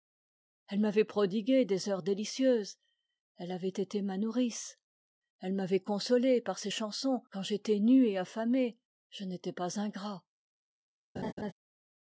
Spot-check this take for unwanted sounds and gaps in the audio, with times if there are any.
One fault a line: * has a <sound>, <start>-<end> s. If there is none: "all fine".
* has a laugh, 11.2-11.5 s